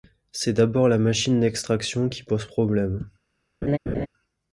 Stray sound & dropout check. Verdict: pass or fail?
fail